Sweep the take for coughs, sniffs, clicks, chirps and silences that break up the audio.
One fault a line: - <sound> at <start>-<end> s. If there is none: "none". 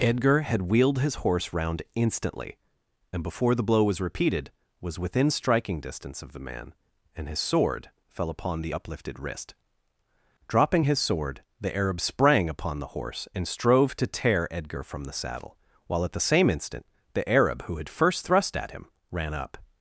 none